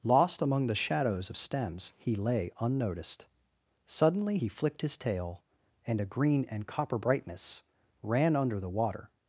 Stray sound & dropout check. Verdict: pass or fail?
pass